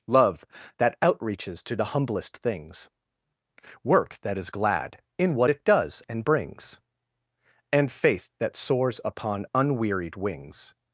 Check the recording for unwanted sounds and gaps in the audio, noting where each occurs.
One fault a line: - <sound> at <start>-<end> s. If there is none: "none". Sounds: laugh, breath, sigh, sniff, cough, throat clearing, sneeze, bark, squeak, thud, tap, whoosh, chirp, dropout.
none